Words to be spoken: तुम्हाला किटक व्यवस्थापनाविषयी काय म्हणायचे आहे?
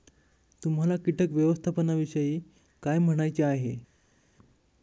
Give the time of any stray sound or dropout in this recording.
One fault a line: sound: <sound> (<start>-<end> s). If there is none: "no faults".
no faults